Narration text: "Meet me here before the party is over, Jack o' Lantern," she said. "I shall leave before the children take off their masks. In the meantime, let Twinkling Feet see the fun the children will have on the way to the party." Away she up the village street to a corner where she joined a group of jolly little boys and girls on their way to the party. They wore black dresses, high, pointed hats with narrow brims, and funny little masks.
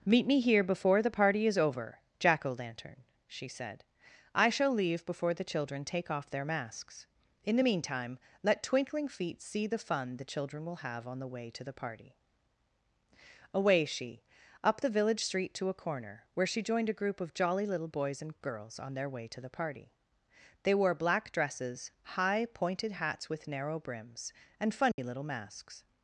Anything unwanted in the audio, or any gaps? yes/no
yes